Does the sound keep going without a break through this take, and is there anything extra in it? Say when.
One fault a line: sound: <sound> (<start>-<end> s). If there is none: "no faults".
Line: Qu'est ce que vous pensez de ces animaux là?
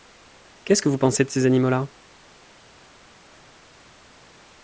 no faults